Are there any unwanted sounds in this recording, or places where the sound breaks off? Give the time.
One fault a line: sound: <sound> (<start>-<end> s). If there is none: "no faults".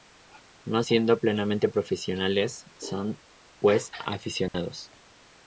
sound: dropout (4.5-4.5 s)